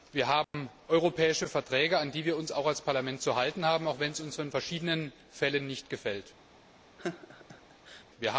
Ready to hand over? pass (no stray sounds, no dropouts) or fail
fail